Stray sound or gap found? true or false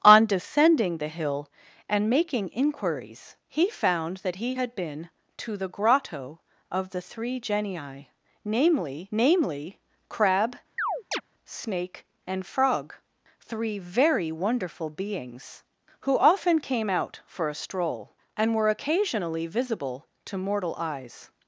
true